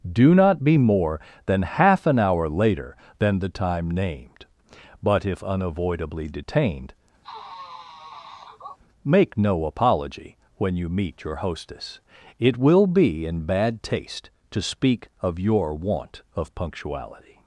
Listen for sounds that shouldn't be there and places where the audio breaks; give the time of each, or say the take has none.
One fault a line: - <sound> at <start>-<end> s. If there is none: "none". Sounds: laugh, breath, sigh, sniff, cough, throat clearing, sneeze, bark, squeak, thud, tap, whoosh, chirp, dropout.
- sniff at 7.2-8.8 s